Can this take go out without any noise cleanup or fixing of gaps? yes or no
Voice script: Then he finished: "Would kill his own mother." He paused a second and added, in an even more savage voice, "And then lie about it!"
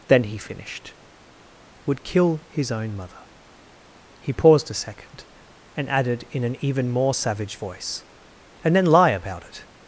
yes